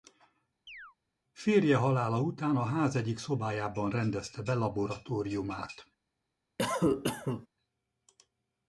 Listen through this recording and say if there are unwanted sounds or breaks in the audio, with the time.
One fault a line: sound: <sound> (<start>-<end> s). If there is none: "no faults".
sound: chirp (0.7-1.0 s)
sound: cough (6.6-7.5 s)